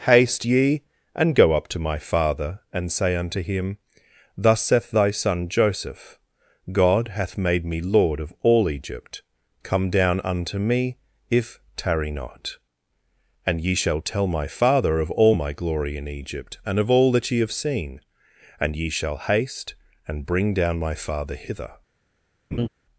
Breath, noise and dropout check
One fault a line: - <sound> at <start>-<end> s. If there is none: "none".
- laugh at 22.5-22.7 s